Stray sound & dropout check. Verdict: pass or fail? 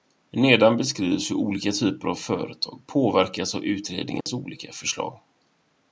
fail